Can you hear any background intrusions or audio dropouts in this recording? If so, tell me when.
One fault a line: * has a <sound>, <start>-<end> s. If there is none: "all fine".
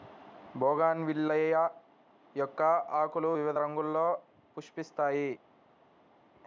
all fine